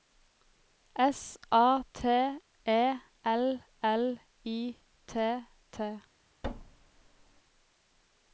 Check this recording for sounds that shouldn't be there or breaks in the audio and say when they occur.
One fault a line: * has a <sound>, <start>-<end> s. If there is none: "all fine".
* has a thud, 6.4-7.4 s